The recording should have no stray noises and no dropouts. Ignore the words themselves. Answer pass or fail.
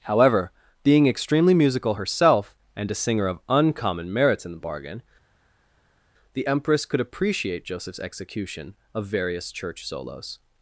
pass